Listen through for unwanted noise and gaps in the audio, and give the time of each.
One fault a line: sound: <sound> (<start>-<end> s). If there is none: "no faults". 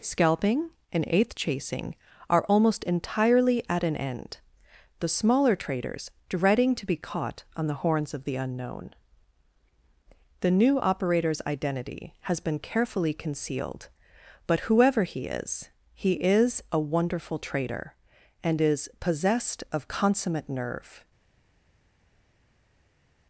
no faults